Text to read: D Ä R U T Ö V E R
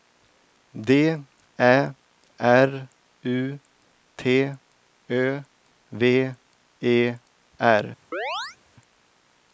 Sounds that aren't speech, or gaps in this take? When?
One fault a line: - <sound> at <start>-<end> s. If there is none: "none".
- chirp at 8.1-8.6 s